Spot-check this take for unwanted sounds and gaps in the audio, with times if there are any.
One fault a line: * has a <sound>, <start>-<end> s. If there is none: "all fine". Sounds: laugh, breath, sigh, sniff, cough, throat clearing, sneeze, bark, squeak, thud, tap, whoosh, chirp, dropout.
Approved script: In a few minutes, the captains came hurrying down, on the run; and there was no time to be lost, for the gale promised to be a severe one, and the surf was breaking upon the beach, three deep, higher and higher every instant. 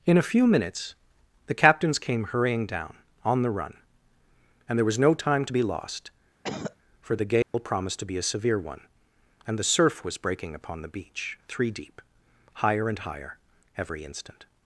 * has a cough, 6.4-6.8 s
* has a dropout, 7.4-7.5 s